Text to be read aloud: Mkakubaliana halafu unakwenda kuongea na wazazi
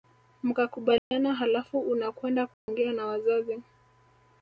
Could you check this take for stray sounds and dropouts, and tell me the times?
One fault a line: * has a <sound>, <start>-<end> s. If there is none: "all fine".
* has a dropout, 1.0-1.1 s
* has a dropout, 2.5-2.7 s